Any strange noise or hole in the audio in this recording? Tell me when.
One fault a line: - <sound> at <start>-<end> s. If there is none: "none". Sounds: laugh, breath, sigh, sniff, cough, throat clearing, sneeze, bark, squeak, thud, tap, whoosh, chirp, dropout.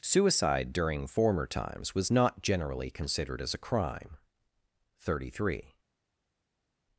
none